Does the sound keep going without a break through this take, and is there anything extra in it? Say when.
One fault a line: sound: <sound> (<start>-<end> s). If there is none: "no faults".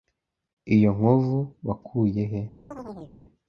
sound: chirp (2.7-3.2 s)